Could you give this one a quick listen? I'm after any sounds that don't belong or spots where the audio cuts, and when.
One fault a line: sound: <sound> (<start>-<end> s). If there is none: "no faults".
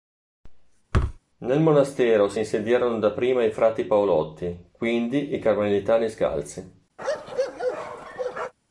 sound: thud (0.9-1.2 s)
sound: bark (7.0-8.5 s)